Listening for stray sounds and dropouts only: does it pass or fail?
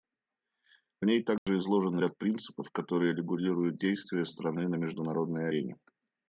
fail